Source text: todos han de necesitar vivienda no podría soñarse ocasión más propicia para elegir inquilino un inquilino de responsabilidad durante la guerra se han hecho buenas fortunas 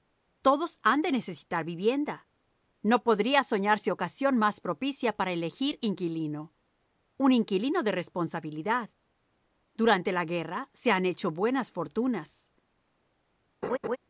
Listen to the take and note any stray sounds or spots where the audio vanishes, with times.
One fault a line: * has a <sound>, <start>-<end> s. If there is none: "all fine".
* has a laugh, 13.6-14.0 s